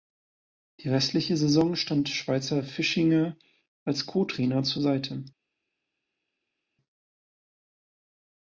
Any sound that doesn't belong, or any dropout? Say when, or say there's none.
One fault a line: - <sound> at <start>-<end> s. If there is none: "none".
none